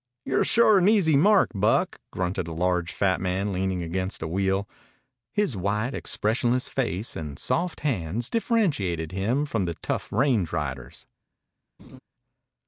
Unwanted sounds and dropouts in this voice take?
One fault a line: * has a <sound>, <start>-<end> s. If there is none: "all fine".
* has a laugh, 11.8-12.0 s